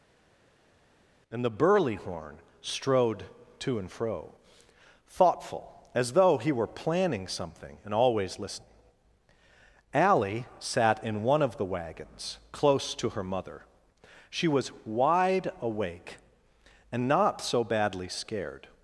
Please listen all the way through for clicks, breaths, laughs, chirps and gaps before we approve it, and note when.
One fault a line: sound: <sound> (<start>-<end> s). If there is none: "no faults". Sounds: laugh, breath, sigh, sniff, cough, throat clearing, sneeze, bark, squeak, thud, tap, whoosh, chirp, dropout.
no faults